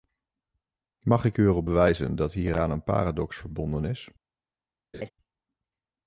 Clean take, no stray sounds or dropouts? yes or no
no